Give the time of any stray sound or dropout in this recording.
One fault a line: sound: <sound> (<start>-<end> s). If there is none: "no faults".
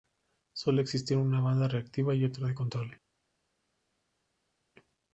no faults